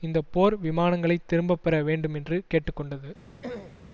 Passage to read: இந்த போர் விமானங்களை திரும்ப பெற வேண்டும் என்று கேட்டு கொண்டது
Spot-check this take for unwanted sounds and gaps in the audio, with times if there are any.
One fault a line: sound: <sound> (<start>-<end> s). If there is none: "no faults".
sound: throat clearing (3.4-3.8 s)